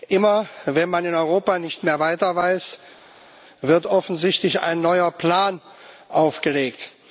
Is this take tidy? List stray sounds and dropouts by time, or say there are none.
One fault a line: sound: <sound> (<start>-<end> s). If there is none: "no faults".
no faults